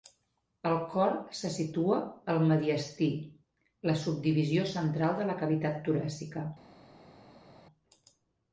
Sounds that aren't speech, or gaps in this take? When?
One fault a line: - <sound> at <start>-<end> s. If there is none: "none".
none